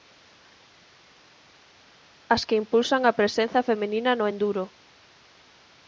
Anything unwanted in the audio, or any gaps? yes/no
no